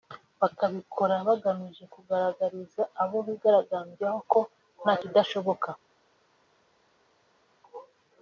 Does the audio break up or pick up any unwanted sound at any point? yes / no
no